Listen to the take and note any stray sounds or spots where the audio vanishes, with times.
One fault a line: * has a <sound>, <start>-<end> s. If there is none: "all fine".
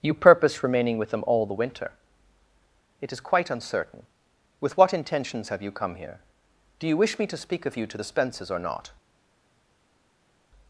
all fine